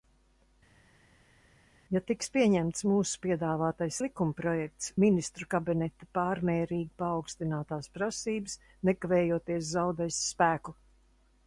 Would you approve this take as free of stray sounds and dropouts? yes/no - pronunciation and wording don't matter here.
yes